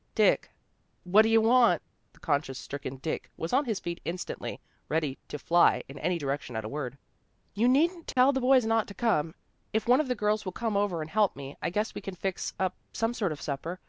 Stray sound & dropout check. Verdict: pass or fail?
fail